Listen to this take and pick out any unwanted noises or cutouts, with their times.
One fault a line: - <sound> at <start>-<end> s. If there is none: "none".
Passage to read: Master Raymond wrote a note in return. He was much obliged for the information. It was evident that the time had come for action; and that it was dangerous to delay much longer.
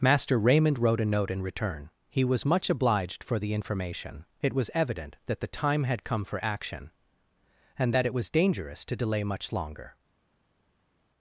none